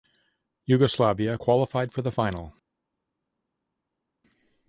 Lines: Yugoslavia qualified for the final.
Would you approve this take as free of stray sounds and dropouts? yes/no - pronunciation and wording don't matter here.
yes